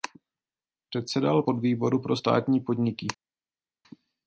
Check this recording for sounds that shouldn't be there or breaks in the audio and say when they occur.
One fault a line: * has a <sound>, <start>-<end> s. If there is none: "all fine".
all fine